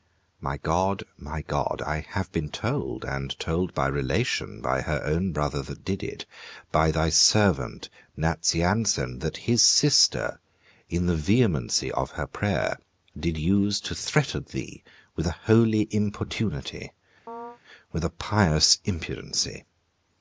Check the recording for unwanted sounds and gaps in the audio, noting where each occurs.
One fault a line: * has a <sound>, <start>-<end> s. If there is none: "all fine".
* has a chirp, 17.3-17.6 s